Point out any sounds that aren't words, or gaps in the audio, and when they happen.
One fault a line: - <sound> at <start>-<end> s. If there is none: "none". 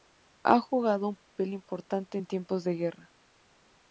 - dropout at 1.2-1.3 s